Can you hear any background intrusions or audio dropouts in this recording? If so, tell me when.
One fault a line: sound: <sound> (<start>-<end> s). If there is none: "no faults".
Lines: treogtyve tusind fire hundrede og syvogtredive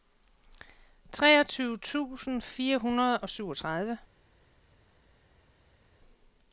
no faults